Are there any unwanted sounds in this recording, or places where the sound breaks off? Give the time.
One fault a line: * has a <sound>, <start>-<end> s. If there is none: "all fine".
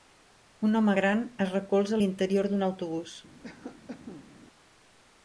* has a cough, 3.4-4.3 s